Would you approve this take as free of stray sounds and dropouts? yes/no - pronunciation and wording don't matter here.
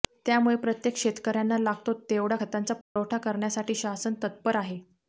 no